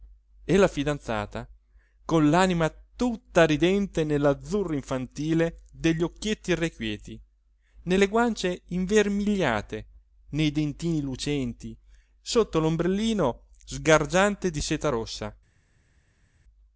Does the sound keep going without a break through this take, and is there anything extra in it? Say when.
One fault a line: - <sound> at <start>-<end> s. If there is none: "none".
none